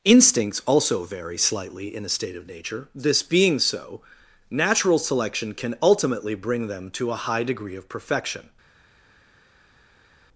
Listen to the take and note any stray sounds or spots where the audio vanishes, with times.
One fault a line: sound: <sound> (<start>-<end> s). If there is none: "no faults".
no faults